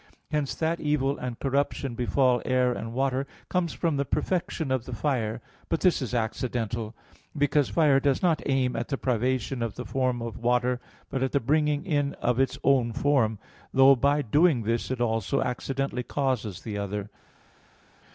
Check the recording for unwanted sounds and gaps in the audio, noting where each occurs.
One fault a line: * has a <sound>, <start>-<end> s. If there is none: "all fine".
all fine